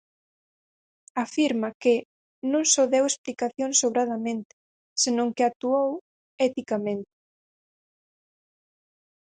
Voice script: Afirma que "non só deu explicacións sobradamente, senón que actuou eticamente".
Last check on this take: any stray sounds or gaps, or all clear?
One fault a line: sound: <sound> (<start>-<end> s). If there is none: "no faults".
no faults